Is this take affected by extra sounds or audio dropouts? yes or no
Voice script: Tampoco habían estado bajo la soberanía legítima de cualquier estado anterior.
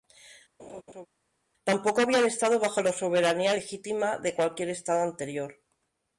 yes